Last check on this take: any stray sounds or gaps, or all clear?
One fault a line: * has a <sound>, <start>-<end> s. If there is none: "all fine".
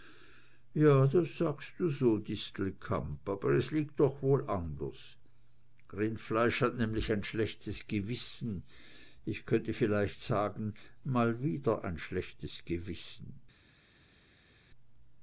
all fine